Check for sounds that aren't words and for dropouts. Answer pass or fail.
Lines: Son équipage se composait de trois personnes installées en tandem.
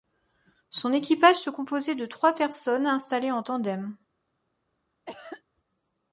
fail